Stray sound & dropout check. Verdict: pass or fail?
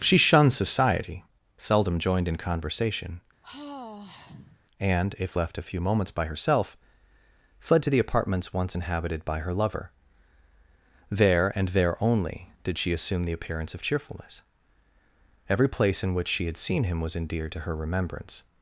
fail